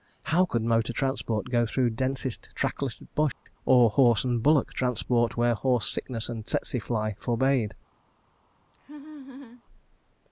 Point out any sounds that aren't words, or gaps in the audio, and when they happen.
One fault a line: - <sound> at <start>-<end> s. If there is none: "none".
- dropout at 3.3-3.5 s
- laugh at 8.7-9.6 s